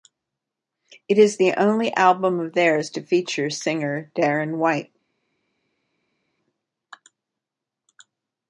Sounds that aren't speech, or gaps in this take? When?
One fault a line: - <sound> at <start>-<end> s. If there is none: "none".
none